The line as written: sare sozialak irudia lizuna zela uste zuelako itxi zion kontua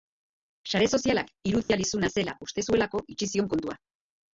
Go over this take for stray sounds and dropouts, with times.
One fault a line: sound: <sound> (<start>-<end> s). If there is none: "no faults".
sound: dropout (1.6-1.7 s)